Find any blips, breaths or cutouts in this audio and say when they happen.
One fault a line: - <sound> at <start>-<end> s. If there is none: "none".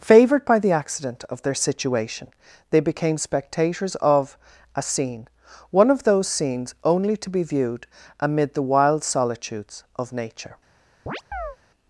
- chirp at 11.1-11.6 s